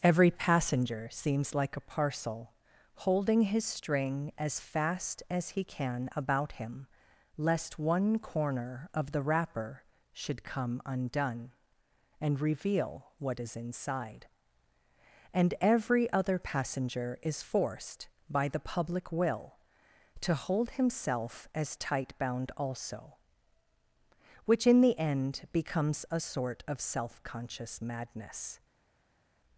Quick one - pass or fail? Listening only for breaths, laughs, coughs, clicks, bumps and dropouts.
pass